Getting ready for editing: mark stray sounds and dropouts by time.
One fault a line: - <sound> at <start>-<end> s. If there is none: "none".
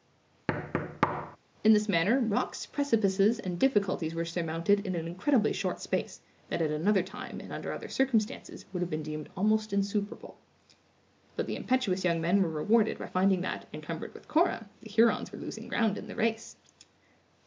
- thud at 0.5-1.4 s